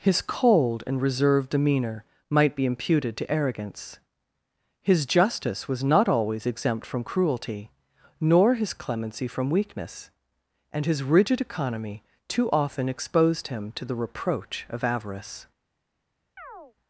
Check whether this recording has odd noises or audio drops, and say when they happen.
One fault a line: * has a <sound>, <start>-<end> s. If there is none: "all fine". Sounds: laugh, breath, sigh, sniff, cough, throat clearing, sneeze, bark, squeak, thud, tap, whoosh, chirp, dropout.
* has a chirp, 16.4-16.7 s